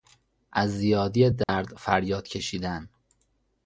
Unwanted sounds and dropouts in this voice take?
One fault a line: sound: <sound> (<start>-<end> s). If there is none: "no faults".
sound: dropout (1.4-1.5 s)